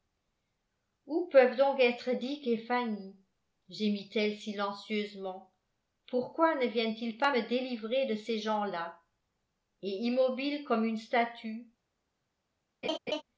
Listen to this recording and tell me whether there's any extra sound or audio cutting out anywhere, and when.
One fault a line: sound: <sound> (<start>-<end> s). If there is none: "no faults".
sound: laugh (12.8-13.2 s)